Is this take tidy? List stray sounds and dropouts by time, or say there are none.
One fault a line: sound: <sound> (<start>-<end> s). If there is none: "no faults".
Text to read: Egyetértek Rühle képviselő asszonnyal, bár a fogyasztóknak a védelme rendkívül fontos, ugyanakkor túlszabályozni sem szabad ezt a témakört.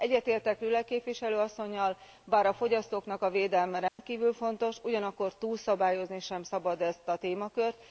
sound: dropout (3.9-4.0 s)